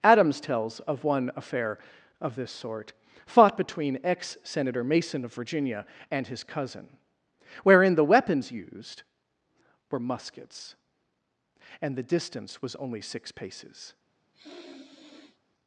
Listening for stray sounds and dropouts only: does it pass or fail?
fail